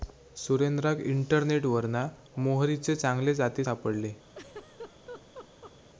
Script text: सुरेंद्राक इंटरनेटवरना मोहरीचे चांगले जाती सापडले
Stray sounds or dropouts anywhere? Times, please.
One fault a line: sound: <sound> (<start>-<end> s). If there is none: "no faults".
sound: laugh (4.3-5.7 s)